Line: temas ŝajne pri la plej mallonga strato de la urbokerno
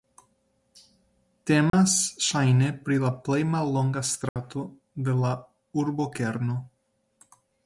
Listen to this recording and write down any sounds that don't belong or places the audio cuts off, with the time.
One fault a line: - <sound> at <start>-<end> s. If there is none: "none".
- dropout at 1.7-1.7 s
- dropout at 4.3-4.4 s